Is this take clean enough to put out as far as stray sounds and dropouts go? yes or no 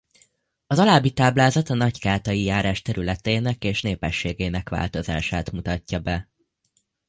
yes